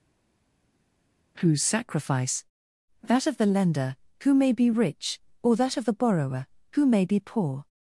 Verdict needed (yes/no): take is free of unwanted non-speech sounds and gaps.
yes